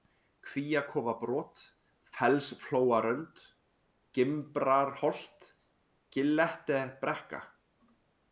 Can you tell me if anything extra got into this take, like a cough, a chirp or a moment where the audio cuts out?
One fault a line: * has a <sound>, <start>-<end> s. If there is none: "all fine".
all fine